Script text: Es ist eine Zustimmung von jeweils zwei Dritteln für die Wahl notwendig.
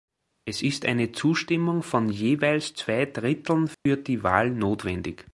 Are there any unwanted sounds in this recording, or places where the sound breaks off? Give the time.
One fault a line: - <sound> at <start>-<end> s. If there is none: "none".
- dropout at 3.7-3.9 s